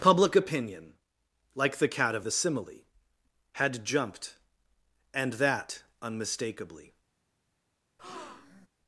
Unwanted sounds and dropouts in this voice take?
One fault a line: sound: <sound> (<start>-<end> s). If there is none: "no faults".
sound: breath (8.0-8.7 s)